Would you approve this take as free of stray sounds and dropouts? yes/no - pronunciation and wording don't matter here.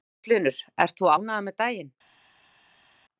yes